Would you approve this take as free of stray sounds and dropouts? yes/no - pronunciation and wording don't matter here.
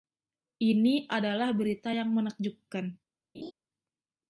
no